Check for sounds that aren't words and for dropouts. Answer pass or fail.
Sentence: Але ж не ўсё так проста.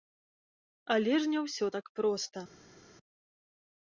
pass